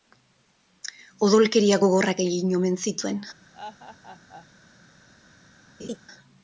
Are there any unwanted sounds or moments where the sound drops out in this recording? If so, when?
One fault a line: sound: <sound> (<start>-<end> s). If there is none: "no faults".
sound: laugh (3.5-4.5 s)
sound: laugh (5.8-6.0 s)